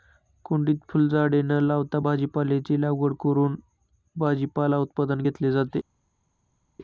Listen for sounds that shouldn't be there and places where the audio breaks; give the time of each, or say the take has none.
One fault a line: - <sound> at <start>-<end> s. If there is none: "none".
none